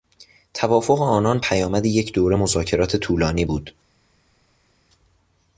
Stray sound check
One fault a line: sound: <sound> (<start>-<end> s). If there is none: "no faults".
no faults